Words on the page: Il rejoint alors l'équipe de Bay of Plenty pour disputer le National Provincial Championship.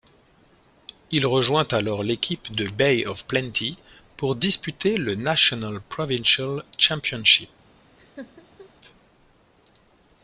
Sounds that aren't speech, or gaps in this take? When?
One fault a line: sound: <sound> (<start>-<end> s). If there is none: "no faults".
sound: laugh (8.0-8.7 s)